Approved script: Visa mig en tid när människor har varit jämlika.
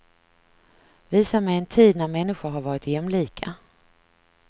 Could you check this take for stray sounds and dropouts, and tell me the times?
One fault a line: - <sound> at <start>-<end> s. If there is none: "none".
none